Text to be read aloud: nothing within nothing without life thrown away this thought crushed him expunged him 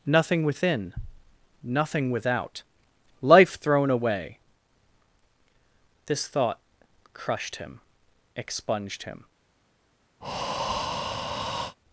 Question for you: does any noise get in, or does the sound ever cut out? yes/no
yes